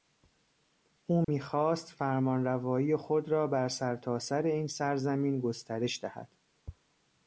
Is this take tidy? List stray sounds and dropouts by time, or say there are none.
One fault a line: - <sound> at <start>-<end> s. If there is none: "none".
- dropout at 1.2-1.3 s